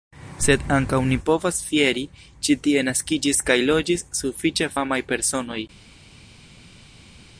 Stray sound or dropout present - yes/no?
no